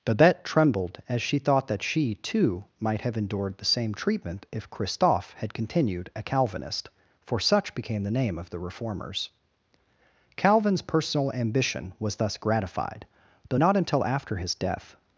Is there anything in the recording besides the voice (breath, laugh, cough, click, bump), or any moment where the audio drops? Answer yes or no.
no